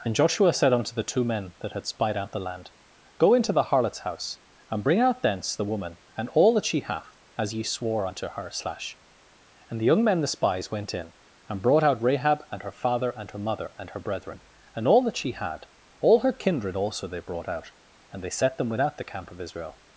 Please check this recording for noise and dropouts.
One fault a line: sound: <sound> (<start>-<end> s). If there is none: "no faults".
no faults